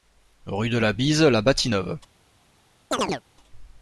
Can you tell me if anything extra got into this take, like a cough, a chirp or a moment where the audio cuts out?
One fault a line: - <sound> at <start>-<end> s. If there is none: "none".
- chirp at 2.9-3.2 s